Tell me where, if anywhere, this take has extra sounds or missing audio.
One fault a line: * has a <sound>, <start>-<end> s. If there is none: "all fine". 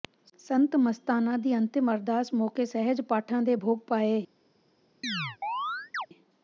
* has a chirp, 5.0-6.1 s